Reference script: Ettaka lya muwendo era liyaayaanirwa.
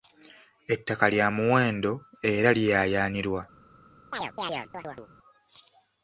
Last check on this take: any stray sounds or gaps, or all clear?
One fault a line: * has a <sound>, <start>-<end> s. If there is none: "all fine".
* has a chirp, 4.1-5.1 s